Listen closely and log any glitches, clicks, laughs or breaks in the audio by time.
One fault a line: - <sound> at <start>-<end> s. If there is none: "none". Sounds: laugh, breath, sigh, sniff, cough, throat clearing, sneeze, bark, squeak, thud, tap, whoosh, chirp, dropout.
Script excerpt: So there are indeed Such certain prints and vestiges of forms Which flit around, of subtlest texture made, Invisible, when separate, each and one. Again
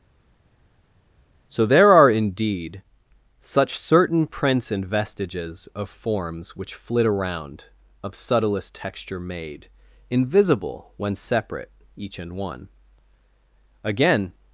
none